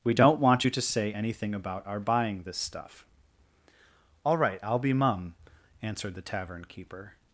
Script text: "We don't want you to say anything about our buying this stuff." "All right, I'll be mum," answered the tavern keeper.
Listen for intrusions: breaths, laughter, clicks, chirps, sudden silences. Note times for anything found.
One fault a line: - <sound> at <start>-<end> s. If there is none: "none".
none